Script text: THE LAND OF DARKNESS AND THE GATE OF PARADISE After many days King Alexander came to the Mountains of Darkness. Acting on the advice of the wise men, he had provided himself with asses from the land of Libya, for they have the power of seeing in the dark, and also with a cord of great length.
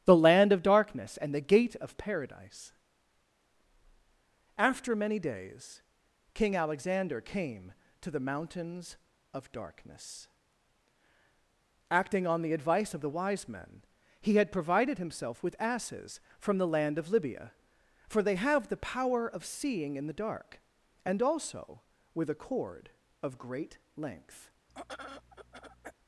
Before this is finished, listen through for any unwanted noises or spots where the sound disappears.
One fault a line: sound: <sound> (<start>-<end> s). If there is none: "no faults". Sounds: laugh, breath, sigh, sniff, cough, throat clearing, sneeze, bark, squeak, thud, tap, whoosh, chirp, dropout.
sound: throat clearing (24.7-25.9 s)